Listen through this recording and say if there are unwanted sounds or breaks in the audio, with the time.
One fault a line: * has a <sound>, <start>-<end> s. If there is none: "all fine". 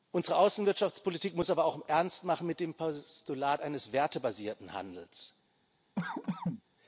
* has a cough, 6.0-6.6 s